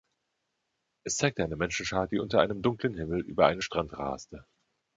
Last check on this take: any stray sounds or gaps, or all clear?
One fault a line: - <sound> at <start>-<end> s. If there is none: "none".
none